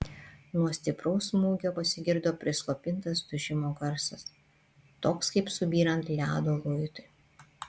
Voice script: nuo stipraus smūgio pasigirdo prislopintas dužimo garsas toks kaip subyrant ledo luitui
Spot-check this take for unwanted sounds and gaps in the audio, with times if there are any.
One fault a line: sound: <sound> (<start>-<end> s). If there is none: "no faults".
no faults